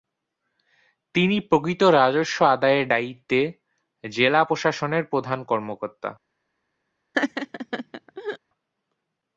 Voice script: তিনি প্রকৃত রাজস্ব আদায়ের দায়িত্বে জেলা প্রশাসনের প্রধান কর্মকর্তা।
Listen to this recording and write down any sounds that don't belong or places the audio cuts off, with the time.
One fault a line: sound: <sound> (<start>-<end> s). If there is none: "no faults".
sound: laugh (7.1-8.4 s)